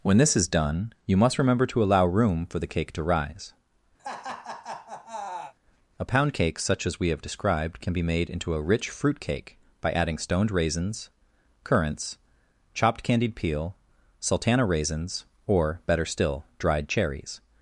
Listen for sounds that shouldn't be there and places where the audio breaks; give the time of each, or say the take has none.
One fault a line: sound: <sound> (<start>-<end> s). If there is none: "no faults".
sound: laugh (4.0-5.5 s)